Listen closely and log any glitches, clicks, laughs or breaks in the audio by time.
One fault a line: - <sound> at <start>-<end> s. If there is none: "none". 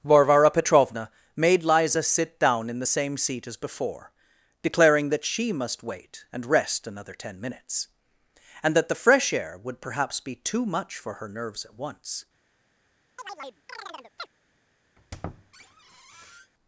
- chirp at 13.2-14.3 s
- squeak at 15.0-16.5 s